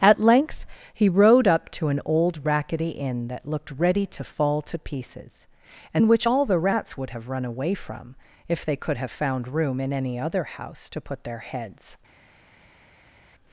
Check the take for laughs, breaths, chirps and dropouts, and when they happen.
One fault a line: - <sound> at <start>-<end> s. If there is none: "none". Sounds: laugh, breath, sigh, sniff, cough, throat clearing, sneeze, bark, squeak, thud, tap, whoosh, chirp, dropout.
none